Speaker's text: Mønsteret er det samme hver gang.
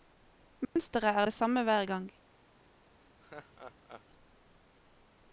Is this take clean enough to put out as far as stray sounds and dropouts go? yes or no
no